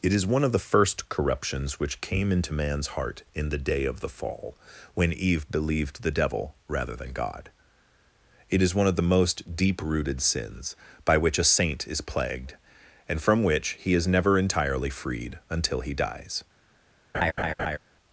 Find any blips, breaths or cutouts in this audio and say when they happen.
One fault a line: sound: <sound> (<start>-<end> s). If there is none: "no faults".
sound: laugh (17.1-17.8 s)